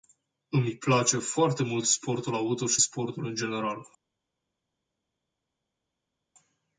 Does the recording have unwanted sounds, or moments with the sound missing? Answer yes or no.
no